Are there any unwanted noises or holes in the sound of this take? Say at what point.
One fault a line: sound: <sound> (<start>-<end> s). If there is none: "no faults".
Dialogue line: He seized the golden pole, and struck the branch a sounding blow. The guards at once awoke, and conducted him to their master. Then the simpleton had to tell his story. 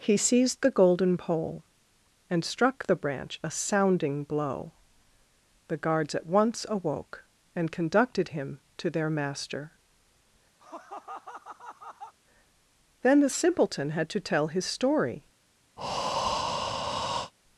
sound: laugh (10.6-12.1 s)
sound: breath (15.8-17.3 s)